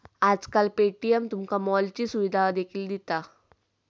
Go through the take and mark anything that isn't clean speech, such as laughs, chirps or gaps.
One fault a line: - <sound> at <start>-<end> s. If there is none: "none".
none